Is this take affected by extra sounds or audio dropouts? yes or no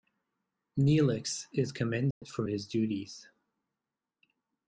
yes